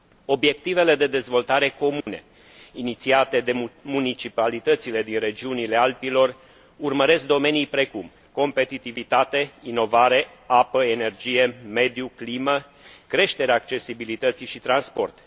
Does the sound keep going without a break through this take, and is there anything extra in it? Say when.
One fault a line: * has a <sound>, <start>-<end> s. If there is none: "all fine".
* has a dropout, 2.0-2.1 s